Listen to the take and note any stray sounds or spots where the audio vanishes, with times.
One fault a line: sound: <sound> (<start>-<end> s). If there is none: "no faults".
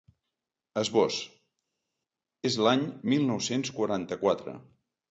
no faults